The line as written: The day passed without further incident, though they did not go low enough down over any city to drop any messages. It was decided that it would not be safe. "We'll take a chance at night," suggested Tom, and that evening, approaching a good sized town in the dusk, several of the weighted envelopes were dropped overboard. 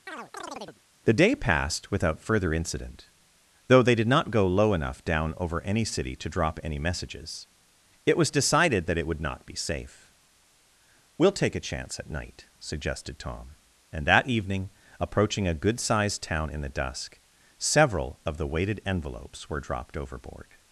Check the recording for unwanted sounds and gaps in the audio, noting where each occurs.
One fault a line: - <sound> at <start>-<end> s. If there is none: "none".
- chirp at 0.1-0.8 s